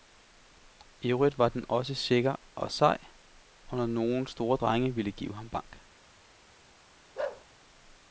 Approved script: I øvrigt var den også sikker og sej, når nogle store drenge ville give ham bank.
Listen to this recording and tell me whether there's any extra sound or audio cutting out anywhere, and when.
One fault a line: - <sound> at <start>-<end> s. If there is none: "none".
- bark at 7.2-7.5 s